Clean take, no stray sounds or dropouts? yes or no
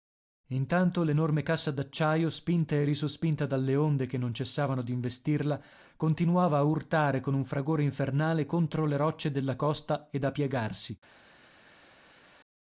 yes